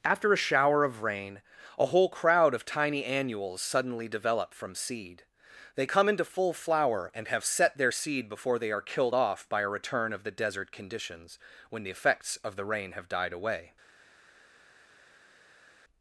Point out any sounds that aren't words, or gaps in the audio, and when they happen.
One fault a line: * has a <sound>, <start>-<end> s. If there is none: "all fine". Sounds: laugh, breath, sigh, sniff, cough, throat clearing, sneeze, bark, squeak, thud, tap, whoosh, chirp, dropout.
all fine